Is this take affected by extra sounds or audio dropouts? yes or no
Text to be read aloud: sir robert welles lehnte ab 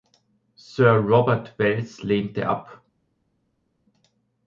no